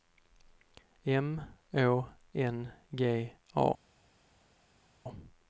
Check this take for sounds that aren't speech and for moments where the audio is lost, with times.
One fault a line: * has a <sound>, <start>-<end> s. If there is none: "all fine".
all fine